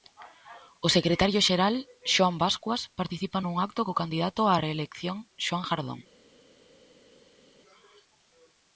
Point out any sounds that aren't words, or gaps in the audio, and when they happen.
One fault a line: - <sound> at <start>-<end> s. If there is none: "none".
none